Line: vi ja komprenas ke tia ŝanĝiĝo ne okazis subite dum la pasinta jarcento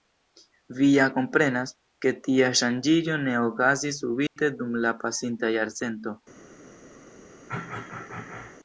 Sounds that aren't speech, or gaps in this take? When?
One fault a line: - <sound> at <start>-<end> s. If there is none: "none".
- dropout at 4.3-4.4 s
- throat clearing at 7.5-8.6 s